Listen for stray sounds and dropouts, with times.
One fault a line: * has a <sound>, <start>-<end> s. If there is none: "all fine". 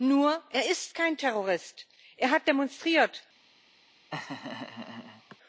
* has a laugh, 4.1-5.4 s